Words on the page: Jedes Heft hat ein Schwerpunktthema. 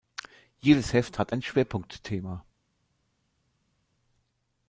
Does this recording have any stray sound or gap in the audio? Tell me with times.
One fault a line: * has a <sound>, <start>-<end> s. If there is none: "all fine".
all fine